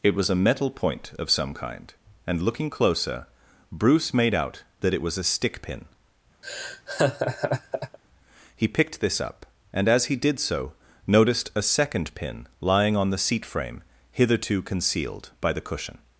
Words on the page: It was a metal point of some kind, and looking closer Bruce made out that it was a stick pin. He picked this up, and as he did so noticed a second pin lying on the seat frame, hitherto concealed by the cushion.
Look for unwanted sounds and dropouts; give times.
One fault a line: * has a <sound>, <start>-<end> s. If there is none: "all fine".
* has a laugh, 6.4-8.0 s